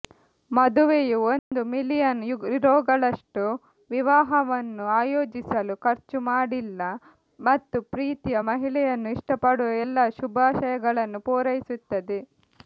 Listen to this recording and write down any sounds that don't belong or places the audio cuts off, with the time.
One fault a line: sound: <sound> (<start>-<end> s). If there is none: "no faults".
sound: dropout (1.4-1.5 s)